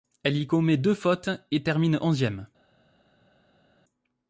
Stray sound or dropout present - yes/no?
no